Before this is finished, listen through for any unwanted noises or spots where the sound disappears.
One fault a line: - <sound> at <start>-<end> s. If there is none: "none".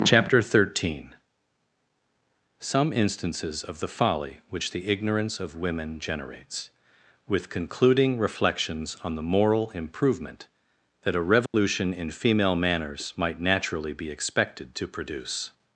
- dropout at 11.5-11.5 s